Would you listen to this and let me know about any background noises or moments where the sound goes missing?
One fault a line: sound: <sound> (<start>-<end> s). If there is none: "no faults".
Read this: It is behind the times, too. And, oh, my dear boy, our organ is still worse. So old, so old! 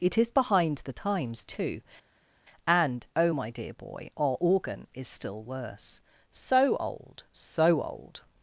no faults